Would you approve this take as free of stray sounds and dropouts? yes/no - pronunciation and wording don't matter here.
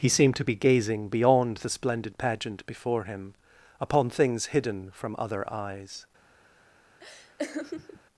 no